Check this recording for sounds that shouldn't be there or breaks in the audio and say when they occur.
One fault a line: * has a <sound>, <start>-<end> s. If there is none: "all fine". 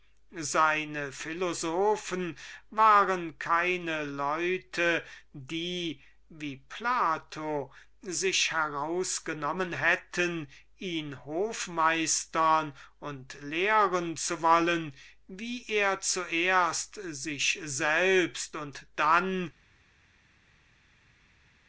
all fine